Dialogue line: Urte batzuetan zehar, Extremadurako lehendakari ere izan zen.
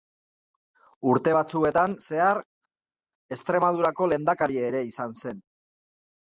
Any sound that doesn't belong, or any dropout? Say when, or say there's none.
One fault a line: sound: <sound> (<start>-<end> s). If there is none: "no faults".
no faults